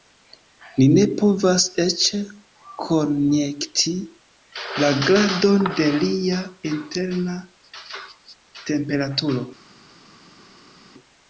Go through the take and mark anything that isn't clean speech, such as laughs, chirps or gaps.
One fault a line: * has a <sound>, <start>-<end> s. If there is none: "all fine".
all fine